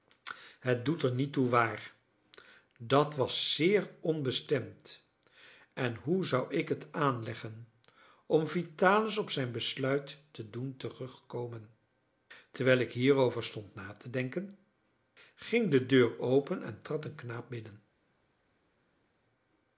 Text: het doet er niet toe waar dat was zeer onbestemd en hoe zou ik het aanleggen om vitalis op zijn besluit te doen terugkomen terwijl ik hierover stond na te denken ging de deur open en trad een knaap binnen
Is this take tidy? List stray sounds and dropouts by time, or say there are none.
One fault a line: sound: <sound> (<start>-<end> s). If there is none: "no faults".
no faults